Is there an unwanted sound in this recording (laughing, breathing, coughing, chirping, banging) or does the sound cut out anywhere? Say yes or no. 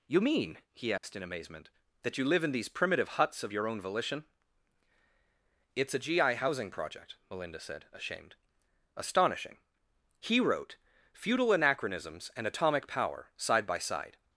yes